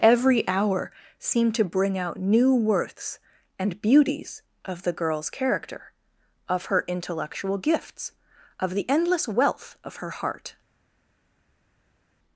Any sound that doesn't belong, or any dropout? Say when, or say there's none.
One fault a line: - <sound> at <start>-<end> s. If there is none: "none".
none